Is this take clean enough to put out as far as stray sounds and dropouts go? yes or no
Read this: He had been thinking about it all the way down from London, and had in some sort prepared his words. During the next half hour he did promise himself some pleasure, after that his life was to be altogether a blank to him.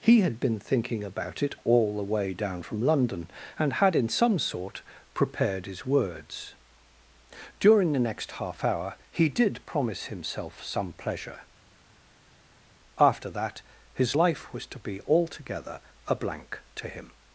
yes